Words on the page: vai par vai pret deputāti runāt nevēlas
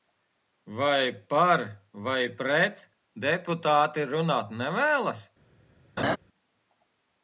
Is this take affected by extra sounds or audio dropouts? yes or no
yes